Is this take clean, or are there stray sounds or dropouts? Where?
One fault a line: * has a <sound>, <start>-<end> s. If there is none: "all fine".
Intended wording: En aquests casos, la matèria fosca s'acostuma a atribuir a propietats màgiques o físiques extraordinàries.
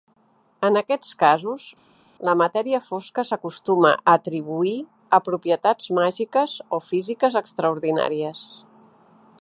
all fine